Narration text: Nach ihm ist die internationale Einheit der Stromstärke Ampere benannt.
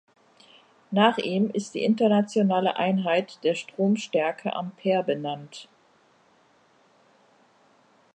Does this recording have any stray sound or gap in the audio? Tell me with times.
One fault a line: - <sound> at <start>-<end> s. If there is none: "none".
none